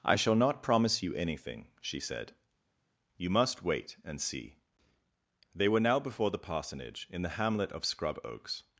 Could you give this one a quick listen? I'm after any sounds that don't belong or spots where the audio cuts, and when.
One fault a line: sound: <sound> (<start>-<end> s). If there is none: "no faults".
no faults